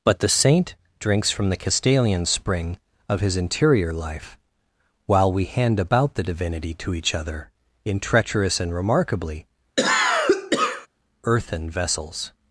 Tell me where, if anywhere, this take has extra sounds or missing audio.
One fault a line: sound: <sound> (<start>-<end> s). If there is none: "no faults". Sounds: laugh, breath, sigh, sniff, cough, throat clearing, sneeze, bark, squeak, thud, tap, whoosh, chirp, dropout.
sound: cough (9.8-10.9 s)